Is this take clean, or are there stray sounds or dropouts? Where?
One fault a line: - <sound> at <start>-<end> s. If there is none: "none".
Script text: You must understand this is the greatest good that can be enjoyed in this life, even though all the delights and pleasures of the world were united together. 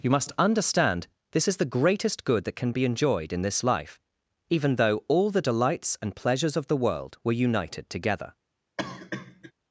- cough at 8.8-9.5 s